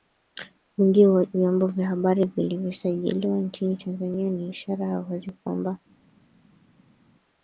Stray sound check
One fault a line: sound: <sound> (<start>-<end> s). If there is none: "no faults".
no faults